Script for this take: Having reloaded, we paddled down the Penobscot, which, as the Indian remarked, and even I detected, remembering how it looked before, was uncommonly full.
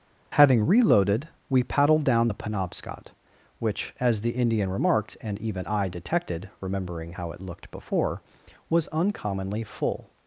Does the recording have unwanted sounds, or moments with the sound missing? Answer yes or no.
no